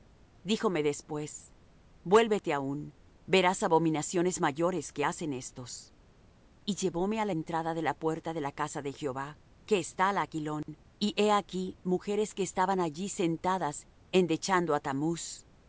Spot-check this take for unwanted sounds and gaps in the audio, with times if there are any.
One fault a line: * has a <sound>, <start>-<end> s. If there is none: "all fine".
* has a dropout, 10.6-10.7 s